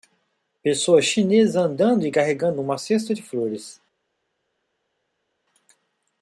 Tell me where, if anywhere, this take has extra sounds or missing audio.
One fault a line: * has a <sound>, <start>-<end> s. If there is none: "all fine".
all fine